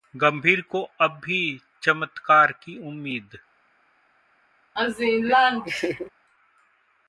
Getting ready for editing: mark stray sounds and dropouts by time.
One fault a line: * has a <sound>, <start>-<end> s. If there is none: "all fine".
* has a laugh, 4.8-6.1 s